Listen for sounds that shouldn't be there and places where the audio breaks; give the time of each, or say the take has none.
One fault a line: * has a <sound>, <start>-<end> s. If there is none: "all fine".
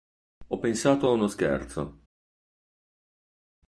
all fine